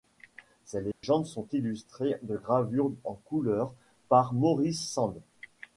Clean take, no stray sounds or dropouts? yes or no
no